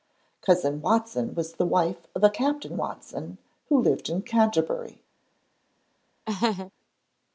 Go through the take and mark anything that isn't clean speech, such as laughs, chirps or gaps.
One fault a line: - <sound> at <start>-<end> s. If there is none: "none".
- laugh at 6.3-6.7 s